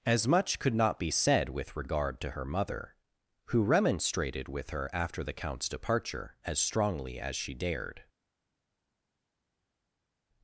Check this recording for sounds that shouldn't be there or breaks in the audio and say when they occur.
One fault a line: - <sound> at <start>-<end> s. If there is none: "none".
none